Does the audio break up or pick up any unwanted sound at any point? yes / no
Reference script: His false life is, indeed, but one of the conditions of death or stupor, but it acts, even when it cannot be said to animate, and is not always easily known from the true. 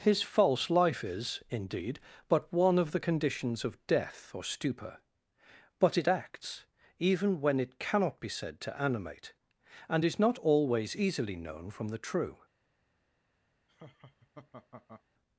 yes